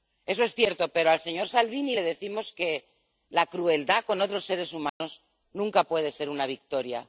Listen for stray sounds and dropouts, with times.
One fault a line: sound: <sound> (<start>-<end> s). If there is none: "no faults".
sound: dropout (4.9-5.0 s)